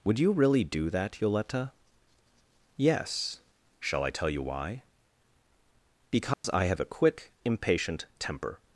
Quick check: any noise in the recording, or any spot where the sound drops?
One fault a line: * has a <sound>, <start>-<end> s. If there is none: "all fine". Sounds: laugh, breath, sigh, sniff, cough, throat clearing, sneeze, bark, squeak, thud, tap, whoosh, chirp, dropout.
* has a dropout, 6.3-6.4 s